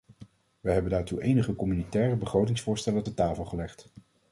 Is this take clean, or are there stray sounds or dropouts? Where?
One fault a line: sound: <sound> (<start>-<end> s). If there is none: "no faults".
no faults